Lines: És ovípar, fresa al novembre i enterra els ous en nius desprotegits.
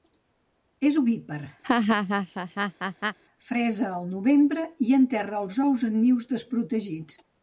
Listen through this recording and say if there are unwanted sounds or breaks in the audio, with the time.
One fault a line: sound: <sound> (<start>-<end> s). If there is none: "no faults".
sound: laugh (1.6-3.2 s)